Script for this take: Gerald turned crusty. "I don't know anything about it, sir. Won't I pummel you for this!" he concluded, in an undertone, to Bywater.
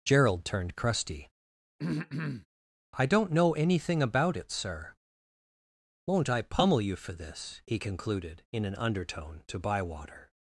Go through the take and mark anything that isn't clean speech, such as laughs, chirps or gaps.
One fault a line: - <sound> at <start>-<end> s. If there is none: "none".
- throat clearing at 1.8-2.5 s